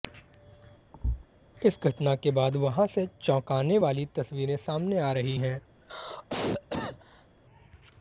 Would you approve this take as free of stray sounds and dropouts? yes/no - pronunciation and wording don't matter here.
no